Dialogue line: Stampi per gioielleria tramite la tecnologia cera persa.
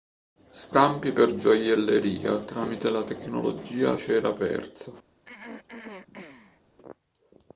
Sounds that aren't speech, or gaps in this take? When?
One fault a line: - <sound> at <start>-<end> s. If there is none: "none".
- throat clearing at 5.3-6.6 s